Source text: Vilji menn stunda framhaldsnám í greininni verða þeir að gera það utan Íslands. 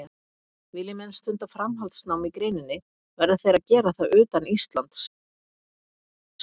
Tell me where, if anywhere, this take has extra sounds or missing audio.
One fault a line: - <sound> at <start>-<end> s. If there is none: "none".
none